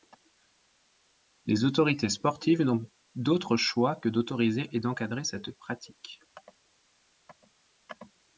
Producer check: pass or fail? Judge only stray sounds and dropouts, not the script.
pass